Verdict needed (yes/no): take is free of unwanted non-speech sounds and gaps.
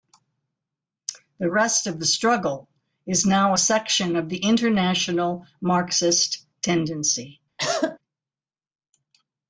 no